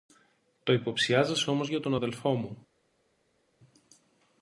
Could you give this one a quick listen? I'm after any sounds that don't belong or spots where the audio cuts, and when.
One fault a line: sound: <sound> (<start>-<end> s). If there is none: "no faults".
no faults